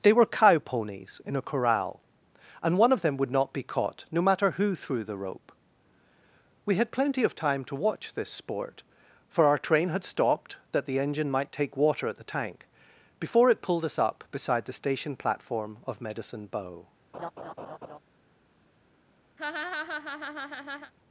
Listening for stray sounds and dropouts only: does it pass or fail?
fail